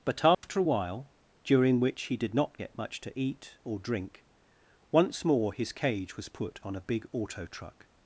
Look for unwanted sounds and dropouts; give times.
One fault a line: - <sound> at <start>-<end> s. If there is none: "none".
- dropout at 0.3-0.4 s